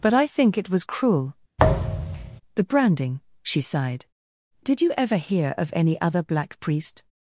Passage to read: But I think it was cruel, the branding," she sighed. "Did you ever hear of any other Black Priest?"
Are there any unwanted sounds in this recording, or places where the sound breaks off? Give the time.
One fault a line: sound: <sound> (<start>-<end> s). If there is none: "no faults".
sound: thud (1.6-2.4 s)